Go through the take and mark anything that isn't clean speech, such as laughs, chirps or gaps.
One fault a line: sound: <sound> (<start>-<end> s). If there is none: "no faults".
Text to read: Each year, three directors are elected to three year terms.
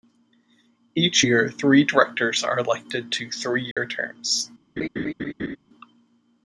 sound: dropout (3.7-3.8 s)
sound: laugh (4.8-5.6 s)